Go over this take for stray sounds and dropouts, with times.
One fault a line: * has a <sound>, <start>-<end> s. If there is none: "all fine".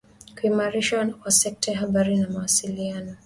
all fine